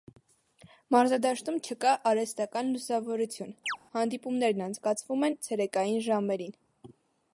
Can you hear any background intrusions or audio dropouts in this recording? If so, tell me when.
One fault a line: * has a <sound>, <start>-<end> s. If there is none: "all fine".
* has a chirp, 3.7-3.8 s